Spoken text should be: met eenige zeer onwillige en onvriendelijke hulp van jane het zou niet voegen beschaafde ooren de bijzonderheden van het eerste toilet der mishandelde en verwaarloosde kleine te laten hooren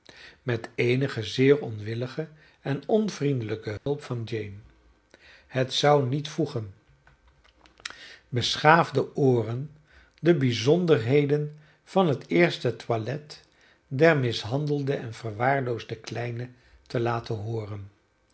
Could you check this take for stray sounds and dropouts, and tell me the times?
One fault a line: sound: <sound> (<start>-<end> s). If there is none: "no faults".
sound: dropout (3.8-3.9 s)